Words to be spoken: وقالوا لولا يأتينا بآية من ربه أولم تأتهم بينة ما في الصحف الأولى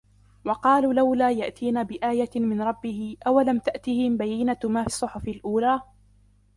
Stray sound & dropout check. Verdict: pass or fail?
pass